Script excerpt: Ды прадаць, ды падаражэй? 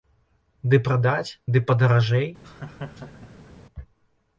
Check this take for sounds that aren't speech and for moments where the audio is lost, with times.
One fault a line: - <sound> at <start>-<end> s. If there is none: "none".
- laugh at 2.4-3.5 s